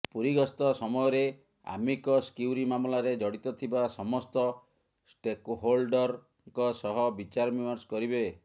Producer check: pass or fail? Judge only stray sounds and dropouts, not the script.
pass